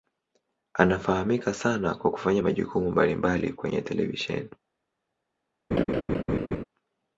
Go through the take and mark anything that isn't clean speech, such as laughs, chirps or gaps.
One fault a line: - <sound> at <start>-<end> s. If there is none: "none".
- laugh at 5.7-6.6 s